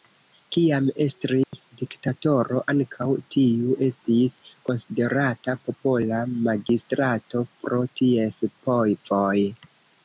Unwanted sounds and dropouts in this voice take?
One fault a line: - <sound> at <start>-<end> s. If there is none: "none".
- dropout at 1.4-1.5 s